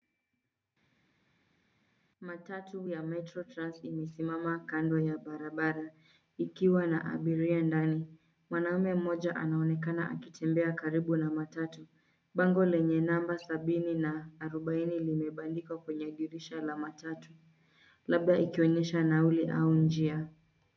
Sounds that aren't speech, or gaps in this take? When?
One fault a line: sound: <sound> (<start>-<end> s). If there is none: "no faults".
no faults